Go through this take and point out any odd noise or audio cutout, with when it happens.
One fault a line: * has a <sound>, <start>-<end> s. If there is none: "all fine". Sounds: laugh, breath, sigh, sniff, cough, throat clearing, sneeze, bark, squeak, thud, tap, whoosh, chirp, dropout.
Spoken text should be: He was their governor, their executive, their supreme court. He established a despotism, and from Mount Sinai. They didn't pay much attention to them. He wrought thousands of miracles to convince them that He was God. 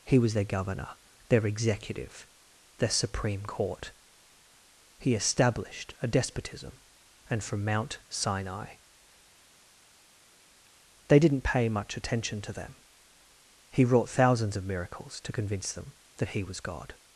all fine